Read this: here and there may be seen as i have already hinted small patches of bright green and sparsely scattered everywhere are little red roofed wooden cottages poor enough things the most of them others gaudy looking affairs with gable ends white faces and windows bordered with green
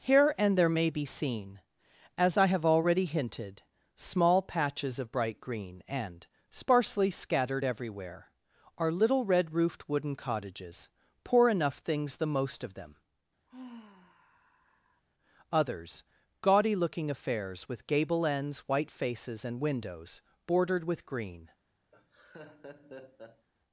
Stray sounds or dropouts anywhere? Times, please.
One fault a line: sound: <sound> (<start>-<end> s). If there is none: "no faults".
sound: sigh (13.5-15.0 s)
sound: laugh (21.9-23.5 s)